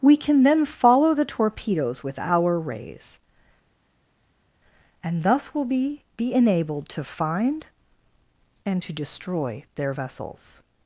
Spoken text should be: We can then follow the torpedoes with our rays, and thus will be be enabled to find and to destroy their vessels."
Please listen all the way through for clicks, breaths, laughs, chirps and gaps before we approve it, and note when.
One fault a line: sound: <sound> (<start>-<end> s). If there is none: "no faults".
no faults